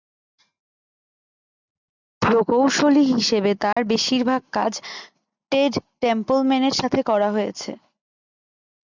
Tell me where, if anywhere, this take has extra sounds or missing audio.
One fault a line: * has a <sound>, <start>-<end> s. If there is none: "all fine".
* has a dropout, 3.7-3.8 s